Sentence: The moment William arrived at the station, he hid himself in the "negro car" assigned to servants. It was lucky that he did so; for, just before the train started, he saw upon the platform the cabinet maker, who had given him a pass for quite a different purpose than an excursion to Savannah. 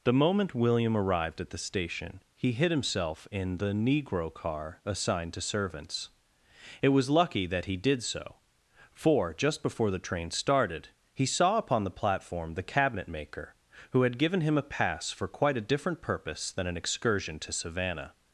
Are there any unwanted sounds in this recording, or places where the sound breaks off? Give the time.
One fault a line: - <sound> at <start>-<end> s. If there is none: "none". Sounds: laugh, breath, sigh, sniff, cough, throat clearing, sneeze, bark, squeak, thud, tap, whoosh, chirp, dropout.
none